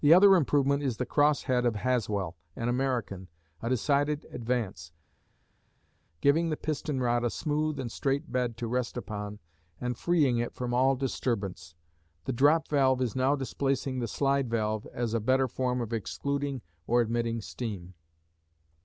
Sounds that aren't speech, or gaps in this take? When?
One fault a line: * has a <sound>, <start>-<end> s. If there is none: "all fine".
all fine